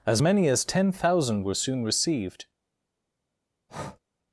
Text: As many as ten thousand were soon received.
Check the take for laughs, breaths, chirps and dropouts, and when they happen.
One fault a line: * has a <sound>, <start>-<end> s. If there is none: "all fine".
* has a breath, 3.7-4.0 s